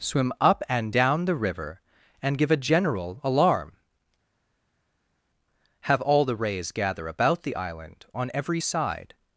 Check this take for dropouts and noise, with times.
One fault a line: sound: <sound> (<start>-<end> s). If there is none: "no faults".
no faults